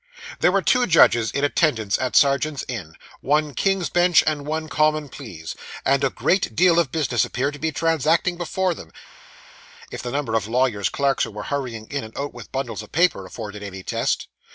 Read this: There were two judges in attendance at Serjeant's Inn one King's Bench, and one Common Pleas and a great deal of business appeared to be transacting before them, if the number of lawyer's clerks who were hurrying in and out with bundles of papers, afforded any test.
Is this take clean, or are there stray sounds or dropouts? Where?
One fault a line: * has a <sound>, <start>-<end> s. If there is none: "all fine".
all fine